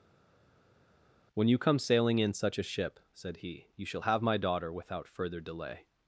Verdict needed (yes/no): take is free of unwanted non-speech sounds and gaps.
yes